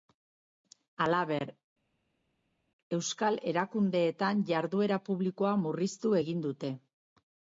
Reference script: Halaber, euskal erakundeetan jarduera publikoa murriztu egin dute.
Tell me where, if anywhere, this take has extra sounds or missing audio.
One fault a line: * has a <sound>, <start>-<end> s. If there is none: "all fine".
all fine